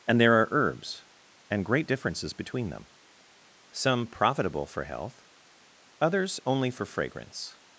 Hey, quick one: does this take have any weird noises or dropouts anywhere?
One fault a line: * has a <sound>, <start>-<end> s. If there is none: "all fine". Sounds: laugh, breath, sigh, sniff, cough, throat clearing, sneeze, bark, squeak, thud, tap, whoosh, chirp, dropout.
all fine